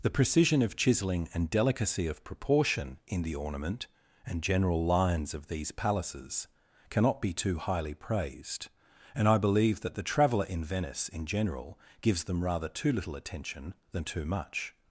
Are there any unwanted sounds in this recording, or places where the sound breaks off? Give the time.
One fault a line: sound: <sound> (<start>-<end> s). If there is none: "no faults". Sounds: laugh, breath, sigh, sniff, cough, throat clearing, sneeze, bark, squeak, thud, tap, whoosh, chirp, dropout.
no faults